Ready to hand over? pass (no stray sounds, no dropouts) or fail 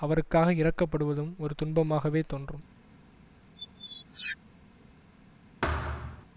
fail